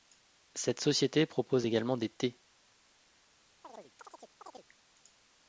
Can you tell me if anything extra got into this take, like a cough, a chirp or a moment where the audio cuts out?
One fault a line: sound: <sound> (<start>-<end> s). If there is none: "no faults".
sound: chirp (3.6-4.7 s)